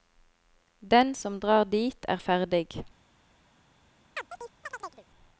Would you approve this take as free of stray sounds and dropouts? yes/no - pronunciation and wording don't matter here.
no